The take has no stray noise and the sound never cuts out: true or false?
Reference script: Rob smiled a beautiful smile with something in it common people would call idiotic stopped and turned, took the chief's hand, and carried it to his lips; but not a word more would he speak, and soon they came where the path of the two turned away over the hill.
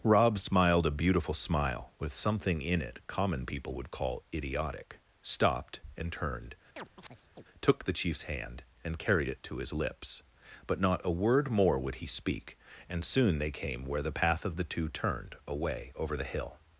false